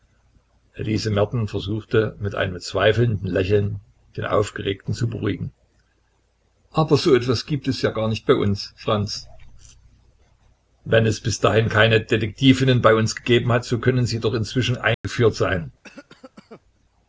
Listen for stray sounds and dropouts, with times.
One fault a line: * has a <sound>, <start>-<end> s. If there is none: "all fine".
* has a dropout, 14.9-15.0 s
* has a cough, 15.8-16.6 s